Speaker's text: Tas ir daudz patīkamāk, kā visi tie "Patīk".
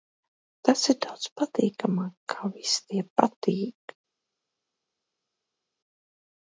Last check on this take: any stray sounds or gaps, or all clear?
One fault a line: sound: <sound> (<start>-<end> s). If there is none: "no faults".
no faults